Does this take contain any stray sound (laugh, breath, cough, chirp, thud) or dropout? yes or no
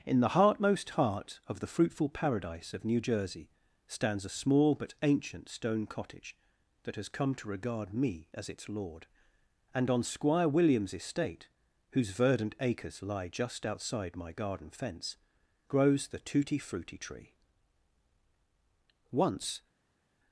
no